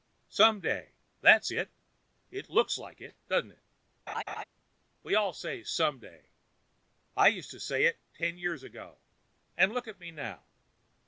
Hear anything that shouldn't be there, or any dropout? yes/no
yes